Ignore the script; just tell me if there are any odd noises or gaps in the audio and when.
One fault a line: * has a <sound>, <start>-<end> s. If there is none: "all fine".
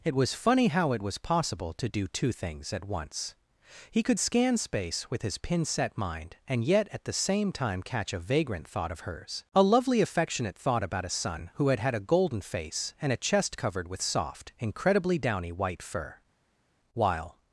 all fine